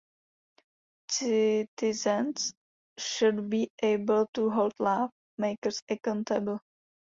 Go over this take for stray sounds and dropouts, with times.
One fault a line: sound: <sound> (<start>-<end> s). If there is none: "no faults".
no faults